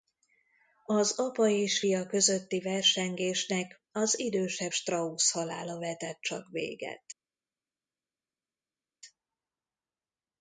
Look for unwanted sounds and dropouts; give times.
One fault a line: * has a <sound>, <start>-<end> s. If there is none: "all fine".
all fine